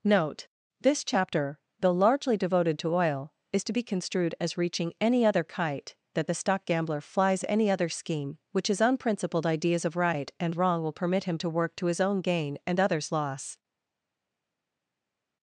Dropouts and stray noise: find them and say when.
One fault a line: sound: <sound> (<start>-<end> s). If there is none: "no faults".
no faults